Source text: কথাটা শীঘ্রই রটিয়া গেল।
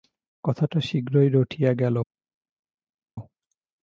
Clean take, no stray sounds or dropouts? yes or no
yes